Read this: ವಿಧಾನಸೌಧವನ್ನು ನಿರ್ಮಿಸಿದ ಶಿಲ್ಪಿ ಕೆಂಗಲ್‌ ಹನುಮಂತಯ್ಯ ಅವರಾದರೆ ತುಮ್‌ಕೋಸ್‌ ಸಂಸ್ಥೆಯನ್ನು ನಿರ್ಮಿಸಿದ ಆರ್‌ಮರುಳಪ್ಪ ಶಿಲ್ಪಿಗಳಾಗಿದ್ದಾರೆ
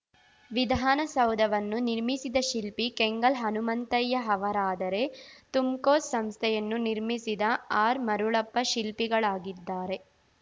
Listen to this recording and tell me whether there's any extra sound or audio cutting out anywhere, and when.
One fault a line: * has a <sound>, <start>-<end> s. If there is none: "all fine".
all fine